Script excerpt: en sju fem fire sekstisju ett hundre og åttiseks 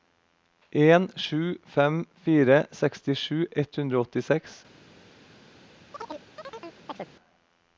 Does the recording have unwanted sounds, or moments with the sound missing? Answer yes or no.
yes